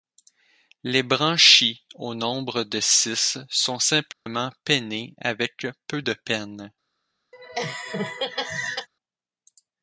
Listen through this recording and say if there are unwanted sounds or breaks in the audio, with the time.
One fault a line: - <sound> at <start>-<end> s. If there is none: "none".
- dropout at 4.1-4.3 s
- laugh at 7.3-8.9 s